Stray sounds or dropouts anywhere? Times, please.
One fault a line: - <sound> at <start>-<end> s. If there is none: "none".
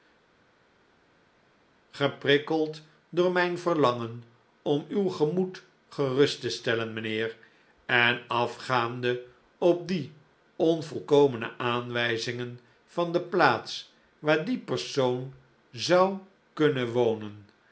none